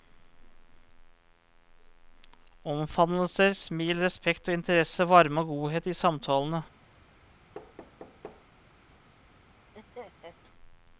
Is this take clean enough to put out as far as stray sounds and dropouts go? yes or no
no